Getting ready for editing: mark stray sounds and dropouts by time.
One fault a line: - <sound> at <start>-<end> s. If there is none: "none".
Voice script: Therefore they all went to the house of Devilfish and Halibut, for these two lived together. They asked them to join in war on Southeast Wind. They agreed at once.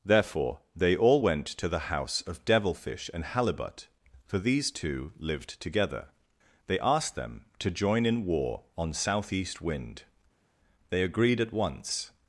none